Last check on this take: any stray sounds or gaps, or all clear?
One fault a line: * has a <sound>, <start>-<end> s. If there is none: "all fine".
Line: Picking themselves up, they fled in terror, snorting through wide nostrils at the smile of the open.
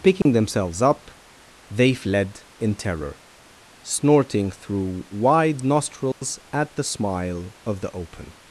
* has a dropout, 0.2-0.3 s
* has a dropout, 6.1-6.2 s